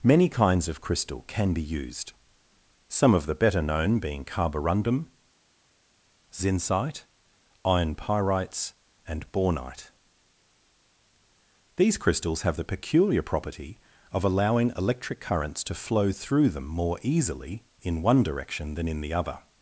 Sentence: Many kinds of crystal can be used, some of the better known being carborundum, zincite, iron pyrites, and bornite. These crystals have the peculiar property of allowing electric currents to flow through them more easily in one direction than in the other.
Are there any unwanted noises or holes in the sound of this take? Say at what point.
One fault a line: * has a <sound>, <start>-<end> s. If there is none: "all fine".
all fine